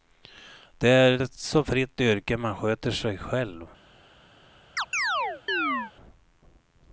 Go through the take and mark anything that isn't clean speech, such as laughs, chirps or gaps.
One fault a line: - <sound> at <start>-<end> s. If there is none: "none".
- chirp at 4.8-5.9 s